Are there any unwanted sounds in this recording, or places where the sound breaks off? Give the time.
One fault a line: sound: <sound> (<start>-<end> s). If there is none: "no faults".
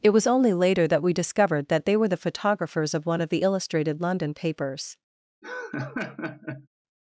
sound: laugh (5.4-6.7 s)